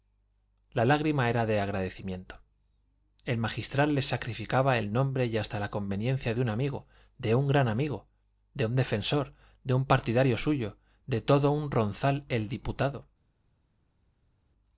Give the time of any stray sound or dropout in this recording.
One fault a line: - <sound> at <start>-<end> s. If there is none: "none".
none